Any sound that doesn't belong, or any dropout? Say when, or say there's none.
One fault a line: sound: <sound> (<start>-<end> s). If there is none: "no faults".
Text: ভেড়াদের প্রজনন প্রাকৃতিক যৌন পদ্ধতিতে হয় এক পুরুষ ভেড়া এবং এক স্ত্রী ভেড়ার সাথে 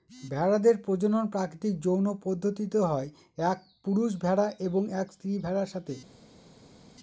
no faults